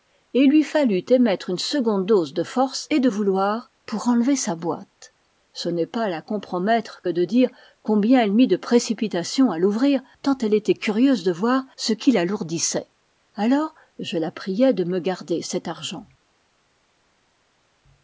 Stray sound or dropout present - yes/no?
no